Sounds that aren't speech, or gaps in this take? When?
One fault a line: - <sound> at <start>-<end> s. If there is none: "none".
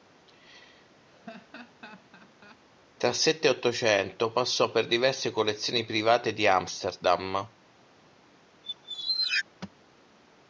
- laugh at 1.1-2.6 s
- squeak at 8.6-9.4 s